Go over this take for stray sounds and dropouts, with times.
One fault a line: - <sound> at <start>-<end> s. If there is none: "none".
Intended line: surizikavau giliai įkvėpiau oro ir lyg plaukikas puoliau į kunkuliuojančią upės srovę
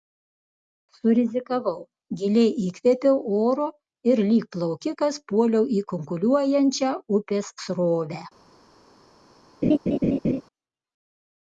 - laugh at 9.6-10.4 s